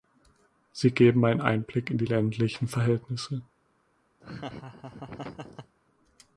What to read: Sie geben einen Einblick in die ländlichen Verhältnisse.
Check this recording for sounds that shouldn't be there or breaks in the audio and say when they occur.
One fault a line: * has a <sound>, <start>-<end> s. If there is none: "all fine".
* has a laugh, 4.2-5.8 s